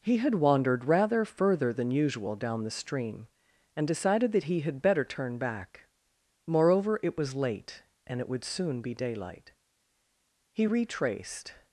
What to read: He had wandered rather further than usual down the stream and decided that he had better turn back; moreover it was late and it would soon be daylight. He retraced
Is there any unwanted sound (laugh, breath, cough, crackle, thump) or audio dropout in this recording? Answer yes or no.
no